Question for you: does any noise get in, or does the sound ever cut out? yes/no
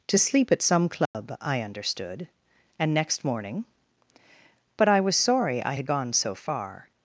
yes